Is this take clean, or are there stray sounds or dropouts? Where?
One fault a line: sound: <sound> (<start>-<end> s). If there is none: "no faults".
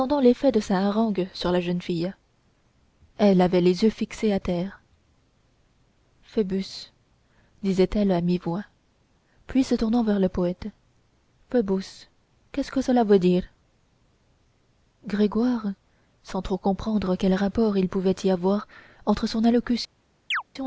sound: chirp (20.3-20.4 s)